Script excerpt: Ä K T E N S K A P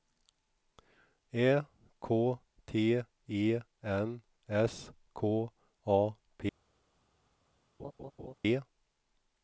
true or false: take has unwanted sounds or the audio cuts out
true